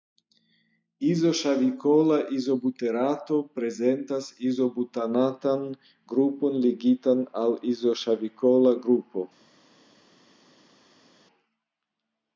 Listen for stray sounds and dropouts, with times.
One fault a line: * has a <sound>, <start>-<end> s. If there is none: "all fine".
all fine